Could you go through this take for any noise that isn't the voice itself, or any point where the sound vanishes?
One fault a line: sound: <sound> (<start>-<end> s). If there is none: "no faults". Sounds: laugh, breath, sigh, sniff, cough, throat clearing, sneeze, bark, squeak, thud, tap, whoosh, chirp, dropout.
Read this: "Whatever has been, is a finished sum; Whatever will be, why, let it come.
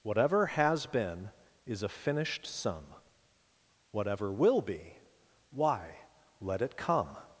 no faults